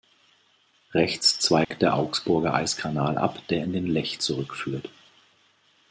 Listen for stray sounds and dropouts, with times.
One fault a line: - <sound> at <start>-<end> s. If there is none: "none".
- dropout at 1.6-1.7 s